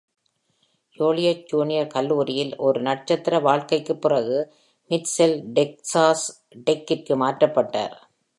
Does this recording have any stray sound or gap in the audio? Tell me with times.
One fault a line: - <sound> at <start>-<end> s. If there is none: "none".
none